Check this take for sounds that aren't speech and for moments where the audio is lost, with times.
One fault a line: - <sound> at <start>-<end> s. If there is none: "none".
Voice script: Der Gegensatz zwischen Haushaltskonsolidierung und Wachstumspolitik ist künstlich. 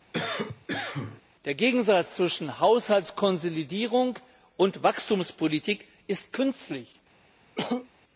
- cough at 0.1-1.2 s
- cough at 7.5-7.9 s